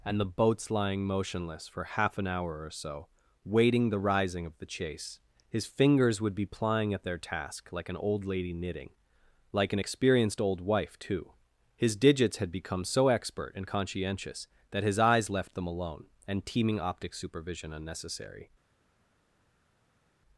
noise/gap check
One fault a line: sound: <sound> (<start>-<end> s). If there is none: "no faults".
no faults